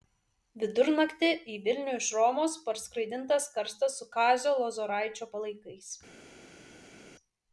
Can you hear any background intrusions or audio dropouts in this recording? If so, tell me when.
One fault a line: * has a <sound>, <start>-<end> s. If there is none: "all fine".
all fine